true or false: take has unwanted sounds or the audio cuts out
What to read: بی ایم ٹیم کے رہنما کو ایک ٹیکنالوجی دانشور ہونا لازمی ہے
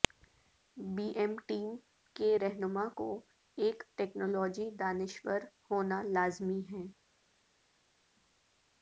false